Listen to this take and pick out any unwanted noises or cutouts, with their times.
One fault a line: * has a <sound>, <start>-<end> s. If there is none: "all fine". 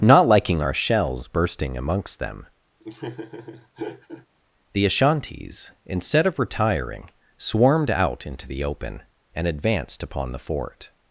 * has a laugh, 2.8-4.3 s